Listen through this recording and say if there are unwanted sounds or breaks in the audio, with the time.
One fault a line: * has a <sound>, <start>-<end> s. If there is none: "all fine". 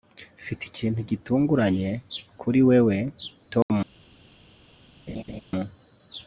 * has a dropout, 3.6-3.7 s
* has a laugh, 5.1-5.4 s